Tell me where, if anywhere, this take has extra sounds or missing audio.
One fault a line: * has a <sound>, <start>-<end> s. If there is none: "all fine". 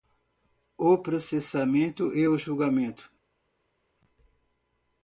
all fine